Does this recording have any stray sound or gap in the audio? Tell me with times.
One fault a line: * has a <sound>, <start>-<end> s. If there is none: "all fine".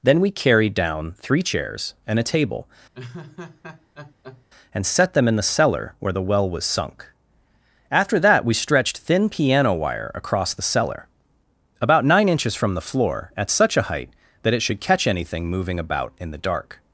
* has a laugh, 2.9-4.5 s